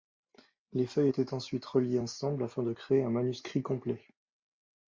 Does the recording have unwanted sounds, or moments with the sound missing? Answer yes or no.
no